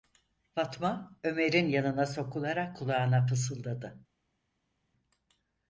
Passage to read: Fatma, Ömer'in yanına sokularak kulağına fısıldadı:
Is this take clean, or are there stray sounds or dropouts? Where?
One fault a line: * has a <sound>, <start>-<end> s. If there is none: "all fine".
all fine